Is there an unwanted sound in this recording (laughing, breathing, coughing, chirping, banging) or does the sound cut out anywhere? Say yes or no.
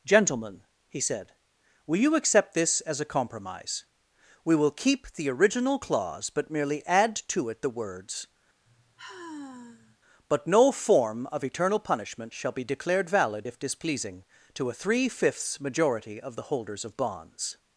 yes